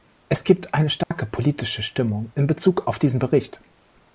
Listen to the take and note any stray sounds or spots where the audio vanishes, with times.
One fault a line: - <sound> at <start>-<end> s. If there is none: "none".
- dropout at 1.0-1.1 s